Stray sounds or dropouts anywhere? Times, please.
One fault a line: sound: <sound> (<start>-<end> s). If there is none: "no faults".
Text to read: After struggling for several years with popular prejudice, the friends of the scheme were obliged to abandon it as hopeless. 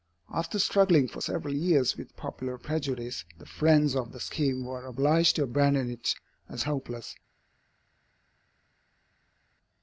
no faults